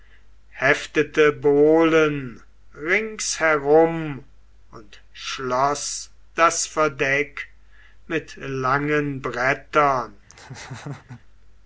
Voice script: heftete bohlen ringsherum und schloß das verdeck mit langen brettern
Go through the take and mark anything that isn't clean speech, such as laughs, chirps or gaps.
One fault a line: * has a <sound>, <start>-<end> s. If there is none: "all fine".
* has a laugh, 10.3-11.2 s